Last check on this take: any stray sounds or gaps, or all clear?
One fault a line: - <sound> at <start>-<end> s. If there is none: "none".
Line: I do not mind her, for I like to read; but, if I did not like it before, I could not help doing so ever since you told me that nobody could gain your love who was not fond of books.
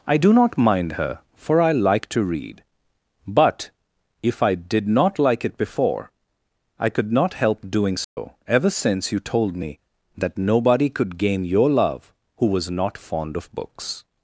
- dropout at 8.0-8.2 s